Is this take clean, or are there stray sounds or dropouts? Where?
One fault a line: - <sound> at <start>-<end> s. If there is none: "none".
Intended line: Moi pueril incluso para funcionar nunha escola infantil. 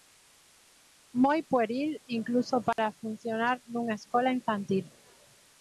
- dropout at 2.7-2.8 s